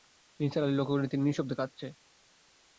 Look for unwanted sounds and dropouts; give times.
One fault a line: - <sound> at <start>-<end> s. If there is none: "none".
none